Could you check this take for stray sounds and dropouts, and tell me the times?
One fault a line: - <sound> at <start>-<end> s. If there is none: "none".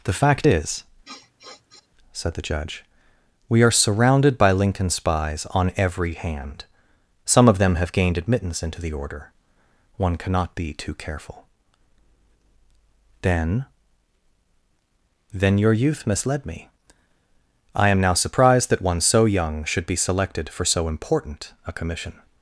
- sniff at 1.0-1.9 s